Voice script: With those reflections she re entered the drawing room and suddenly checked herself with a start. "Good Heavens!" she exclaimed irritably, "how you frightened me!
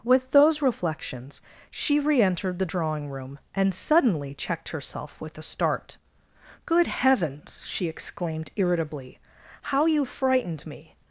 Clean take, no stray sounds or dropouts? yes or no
yes